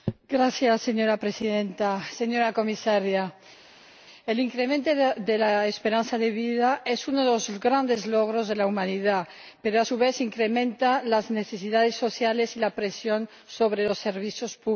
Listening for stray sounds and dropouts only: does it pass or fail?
pass